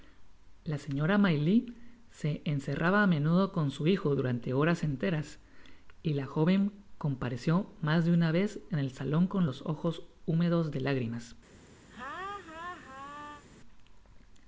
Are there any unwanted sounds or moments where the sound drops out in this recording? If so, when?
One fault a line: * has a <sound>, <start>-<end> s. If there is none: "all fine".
* has a laugh, 11.9-13.4 s